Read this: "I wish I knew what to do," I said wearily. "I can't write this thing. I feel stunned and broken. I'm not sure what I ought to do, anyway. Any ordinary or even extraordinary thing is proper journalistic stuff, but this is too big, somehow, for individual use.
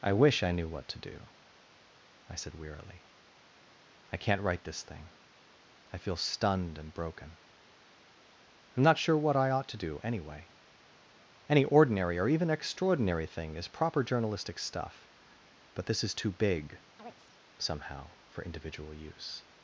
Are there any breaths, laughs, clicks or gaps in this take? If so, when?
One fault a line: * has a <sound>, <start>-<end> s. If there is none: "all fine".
* has a chirp, 17.0-17.4 s